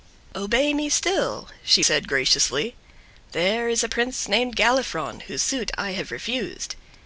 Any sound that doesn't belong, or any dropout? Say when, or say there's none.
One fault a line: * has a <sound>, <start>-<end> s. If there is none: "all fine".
all fine